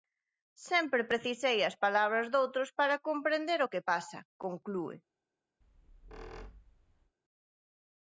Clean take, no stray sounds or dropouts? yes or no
no